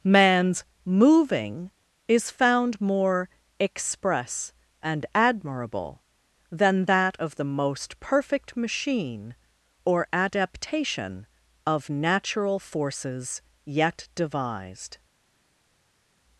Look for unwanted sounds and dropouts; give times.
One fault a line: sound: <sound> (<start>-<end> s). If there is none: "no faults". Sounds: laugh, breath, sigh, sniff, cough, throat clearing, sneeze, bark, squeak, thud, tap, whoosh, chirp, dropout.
no faults